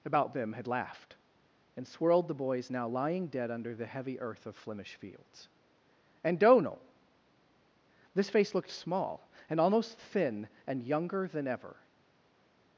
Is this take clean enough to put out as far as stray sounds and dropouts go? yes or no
yes